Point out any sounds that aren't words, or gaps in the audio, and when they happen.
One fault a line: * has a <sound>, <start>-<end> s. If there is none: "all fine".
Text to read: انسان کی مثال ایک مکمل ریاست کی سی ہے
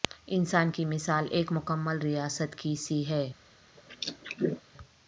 * has a throat clearing, 3.8-4.6 s